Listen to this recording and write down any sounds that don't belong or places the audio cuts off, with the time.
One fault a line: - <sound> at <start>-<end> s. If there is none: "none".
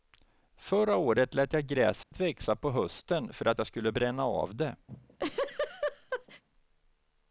- dropout at 2.0-2.1 s
- laugh at 4.9-6.4 s